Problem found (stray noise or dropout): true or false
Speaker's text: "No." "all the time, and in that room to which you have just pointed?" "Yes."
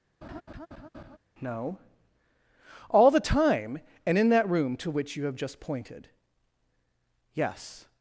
true